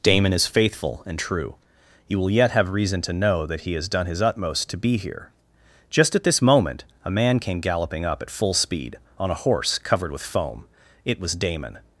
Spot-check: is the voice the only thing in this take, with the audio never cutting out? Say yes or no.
yes